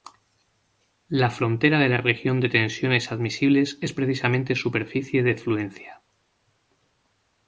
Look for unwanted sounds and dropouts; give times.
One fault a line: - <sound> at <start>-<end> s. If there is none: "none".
none